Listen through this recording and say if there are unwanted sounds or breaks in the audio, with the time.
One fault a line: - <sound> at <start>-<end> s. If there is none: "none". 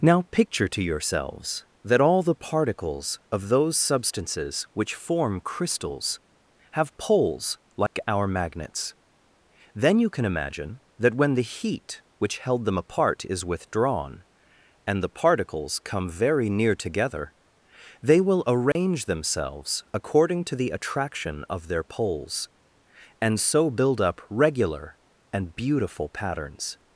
- dropout at 7.9-7.9 s
- dropout at 18.7-18.8 s